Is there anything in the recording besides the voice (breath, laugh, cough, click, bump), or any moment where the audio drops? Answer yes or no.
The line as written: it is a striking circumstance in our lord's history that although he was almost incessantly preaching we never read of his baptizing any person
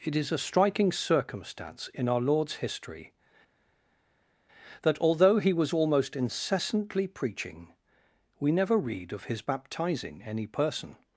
no